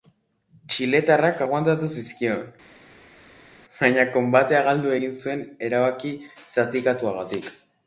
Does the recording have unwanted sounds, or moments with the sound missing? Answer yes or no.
no